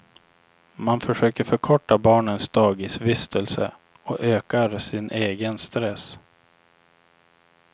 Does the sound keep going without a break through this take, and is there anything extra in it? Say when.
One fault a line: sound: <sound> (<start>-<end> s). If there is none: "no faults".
no faults